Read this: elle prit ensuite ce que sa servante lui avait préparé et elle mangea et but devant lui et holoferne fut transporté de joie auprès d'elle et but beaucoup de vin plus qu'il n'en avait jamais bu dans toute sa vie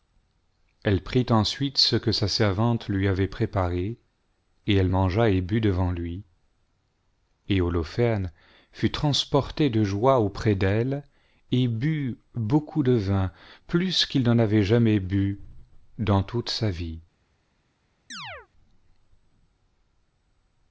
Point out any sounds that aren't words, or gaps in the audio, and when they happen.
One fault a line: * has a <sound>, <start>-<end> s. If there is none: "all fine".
* has a chirp, 18.1-18.5 s